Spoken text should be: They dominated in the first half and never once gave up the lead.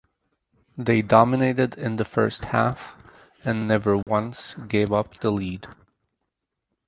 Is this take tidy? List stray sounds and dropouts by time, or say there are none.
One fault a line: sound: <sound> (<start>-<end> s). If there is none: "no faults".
sound: dropout (4.0-4.1 s)